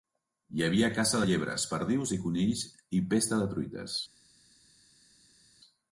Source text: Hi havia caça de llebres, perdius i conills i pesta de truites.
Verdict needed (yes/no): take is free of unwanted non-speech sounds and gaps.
yes